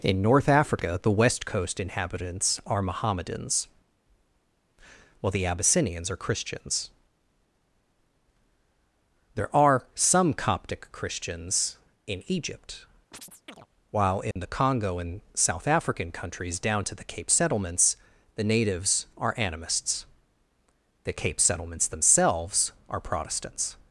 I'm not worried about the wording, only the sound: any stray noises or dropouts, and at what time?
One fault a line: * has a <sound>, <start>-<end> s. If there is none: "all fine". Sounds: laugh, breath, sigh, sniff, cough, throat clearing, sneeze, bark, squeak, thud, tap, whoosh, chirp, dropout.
* has a chirp, 13.1-13.7 s
* has a dropout, 14.3-14.4 s